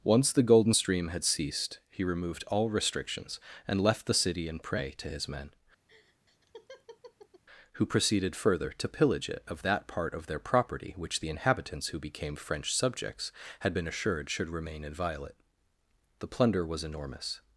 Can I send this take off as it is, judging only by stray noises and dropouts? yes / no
no